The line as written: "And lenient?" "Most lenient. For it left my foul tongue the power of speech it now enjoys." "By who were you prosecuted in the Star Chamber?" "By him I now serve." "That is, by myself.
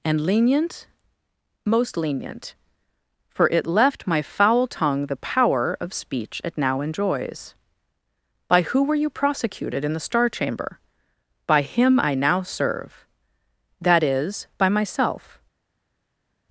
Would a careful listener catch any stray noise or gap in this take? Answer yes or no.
no